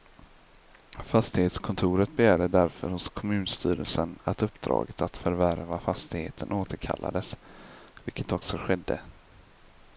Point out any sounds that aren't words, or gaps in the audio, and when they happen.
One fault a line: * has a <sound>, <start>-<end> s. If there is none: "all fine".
all fine